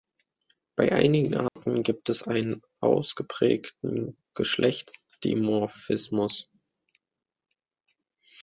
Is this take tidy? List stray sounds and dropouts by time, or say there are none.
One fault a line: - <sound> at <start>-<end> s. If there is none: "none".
- dropout at 1.5-1.6 s